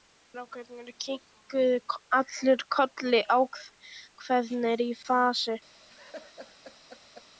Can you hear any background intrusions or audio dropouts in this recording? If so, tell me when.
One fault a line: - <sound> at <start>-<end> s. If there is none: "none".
- laugh at 5.9-7.3 s